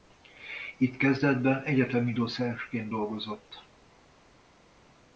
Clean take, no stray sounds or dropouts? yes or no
yes